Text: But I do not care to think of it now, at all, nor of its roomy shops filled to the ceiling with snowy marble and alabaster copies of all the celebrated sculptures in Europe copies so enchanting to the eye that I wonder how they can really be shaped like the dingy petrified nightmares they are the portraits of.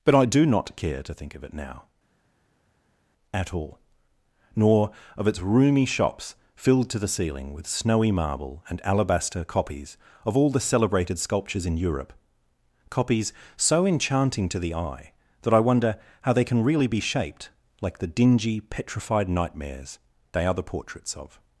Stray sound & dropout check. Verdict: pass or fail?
pass